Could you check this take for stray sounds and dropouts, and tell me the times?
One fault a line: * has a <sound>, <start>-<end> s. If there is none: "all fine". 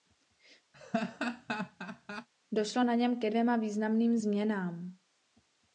* has a laugh, 0.7-2.3 s